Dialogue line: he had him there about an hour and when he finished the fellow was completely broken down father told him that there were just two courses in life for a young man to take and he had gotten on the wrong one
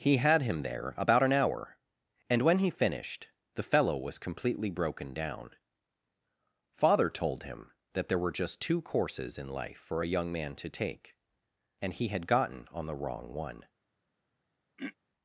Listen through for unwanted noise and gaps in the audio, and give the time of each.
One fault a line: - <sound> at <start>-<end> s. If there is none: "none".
- throat clearing at 14.8-14.9 s